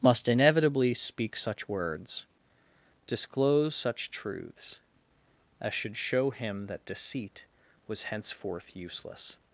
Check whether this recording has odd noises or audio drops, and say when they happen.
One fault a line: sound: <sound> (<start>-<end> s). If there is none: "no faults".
no faults